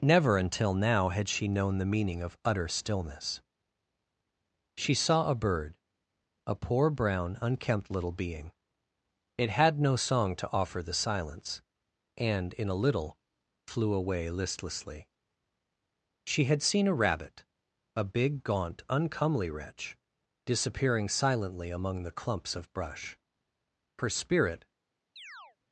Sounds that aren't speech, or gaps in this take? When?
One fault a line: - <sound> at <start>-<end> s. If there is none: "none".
- chirp at 25.2-25.6 s